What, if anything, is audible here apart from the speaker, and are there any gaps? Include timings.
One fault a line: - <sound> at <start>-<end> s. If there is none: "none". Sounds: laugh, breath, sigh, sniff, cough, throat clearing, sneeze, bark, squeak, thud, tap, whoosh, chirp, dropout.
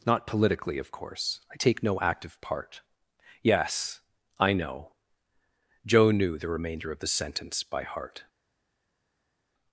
none